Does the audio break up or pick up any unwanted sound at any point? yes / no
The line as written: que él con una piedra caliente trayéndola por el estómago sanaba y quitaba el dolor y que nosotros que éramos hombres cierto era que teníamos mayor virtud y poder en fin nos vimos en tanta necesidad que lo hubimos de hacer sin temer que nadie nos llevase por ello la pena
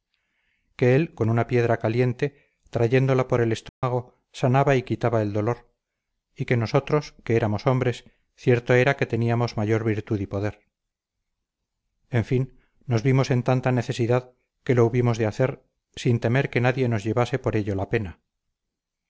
yes